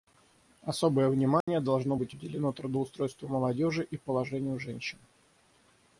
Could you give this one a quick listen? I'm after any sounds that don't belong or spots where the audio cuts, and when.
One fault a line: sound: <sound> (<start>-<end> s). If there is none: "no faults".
sound: dropout (1.4-1.5 s)